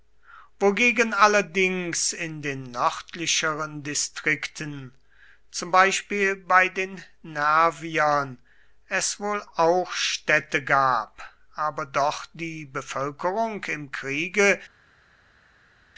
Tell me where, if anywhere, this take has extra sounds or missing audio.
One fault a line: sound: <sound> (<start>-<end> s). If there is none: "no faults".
no faults